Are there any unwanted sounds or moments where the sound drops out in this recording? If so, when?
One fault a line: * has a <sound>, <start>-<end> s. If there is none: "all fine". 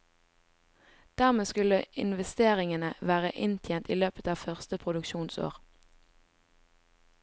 all fine